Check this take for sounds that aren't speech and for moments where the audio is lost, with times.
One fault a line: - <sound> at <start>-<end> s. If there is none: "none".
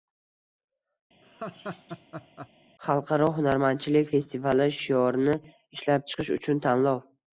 - laugh at 1.2-2.5 s